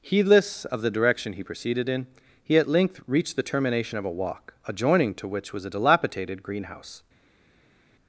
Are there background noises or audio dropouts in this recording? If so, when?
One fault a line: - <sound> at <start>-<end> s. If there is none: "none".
none